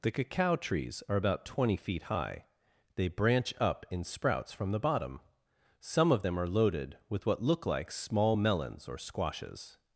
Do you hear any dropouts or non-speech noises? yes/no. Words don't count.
no